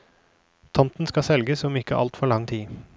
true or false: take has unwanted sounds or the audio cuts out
false